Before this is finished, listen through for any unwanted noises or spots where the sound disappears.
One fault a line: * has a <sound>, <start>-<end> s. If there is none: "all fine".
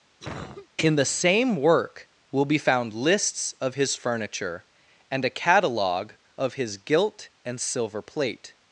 * has a cough, 0.2-0.7 s